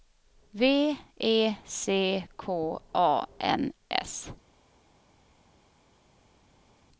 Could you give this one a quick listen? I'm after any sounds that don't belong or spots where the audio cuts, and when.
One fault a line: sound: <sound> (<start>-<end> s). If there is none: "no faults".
no faults